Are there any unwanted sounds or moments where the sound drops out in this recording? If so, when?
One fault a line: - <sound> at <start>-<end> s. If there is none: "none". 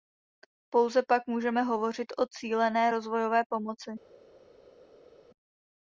none